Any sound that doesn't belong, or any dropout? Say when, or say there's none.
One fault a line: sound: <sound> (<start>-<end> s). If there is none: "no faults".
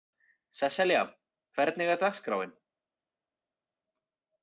no faults